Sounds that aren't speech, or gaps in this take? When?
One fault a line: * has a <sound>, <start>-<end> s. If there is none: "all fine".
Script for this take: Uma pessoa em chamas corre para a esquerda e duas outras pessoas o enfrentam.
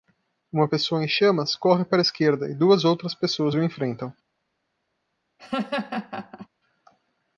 * has a laugh, 5.4-6.5 s